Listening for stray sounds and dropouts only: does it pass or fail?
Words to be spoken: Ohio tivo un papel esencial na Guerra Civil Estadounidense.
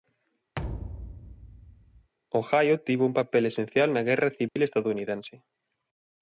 fail